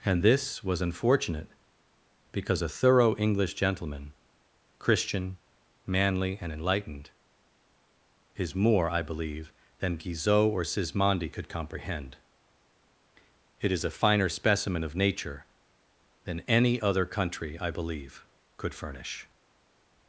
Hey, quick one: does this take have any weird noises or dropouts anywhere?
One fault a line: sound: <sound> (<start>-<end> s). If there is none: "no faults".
no faults